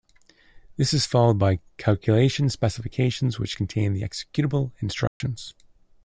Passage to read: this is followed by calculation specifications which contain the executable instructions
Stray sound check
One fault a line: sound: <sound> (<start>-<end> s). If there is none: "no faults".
sound: dropout (5.1-5.2 s)